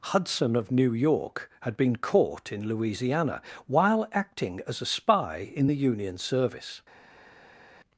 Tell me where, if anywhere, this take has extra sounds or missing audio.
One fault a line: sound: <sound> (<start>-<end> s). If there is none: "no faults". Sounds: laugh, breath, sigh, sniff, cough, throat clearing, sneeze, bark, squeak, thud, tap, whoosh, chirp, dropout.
no faults